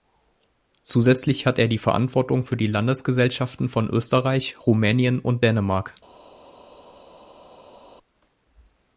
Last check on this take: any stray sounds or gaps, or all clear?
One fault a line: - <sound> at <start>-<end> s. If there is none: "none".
none